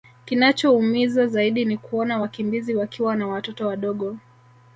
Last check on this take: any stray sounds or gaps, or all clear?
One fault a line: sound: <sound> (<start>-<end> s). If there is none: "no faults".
no faults